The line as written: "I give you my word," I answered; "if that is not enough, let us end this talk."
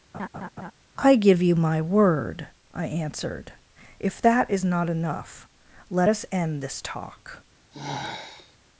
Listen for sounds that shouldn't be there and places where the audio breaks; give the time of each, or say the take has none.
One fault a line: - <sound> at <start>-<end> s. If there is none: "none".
- laugh at 0.1-0.7 s
- sigh at 7.7-8.6 s